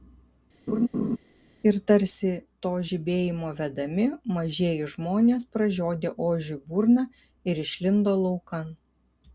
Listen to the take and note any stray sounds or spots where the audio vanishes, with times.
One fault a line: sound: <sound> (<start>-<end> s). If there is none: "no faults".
sound: laugh (0.7-1.2 s)